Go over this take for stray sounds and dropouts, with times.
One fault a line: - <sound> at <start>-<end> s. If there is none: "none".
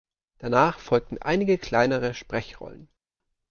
none